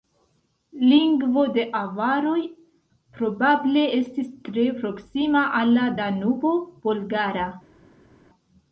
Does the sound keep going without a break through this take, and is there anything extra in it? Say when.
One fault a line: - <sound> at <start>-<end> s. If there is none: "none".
none